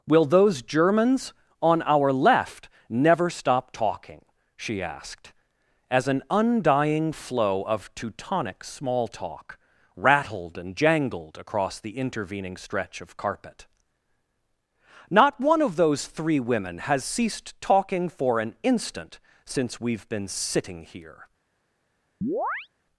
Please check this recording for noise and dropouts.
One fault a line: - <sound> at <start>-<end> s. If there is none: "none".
- chirp at 22.2-22.7 s